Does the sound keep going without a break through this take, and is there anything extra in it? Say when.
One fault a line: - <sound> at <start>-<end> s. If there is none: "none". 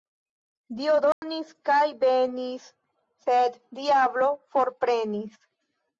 - dropout at 1.1-1.2 s